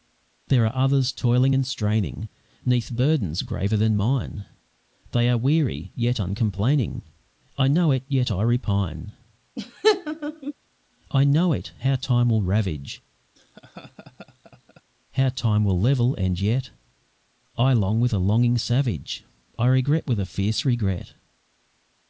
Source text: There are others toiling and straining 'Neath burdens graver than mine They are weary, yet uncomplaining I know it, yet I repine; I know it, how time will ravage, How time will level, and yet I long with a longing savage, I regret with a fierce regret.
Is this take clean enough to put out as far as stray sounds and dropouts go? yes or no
no